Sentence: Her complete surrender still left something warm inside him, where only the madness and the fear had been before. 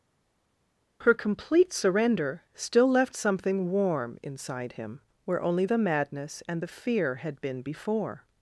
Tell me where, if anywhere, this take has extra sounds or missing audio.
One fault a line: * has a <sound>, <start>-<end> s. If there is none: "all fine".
all fine